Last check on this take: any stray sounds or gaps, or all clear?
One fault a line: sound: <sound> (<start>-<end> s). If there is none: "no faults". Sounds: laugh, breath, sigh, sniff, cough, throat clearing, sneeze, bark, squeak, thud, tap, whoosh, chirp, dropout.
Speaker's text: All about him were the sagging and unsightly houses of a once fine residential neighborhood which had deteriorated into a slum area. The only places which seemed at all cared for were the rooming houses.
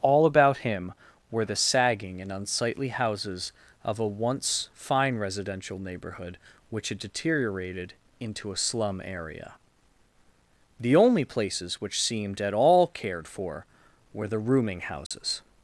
sound: dropout (15.1-15.1 s)